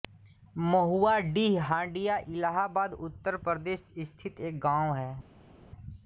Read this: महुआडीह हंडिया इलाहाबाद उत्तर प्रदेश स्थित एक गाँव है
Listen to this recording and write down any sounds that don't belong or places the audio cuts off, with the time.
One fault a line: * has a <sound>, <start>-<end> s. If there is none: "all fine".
all fine